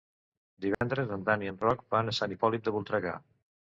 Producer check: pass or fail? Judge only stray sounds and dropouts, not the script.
fail